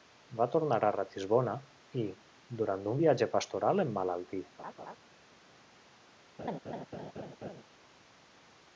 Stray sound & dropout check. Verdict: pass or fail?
fail